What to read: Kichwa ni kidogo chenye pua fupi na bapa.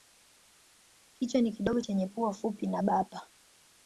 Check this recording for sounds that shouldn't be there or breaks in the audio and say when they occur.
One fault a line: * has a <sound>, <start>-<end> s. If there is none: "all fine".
all fine